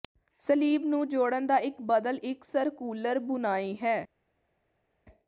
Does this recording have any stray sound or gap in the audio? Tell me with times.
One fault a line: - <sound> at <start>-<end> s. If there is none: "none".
none